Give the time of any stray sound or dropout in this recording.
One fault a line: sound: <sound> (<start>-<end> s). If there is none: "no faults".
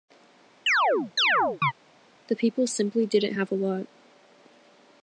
sound: chirp (0.7-1.7 s)